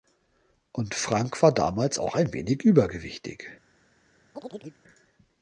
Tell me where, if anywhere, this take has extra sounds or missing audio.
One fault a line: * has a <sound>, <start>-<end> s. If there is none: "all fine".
* has a chirp, 4.3-4.8 s